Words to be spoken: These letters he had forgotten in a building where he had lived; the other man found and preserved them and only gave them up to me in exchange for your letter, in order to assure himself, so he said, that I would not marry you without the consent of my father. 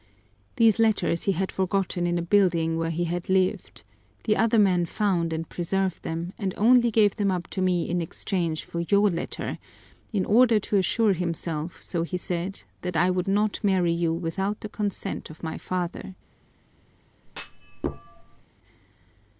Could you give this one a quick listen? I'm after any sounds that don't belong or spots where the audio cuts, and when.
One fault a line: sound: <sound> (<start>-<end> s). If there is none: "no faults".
sound: thud (17.3-18.5 s)